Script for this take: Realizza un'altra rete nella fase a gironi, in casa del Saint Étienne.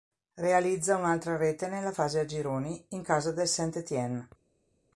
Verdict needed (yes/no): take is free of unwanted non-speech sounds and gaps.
yes